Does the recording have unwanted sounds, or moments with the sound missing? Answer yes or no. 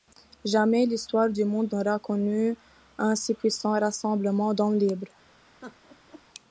yes